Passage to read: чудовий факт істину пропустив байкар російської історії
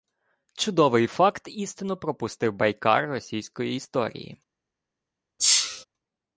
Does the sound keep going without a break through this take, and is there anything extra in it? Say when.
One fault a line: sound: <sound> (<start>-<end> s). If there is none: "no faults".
sound: sneeze (5.4-5.8 s)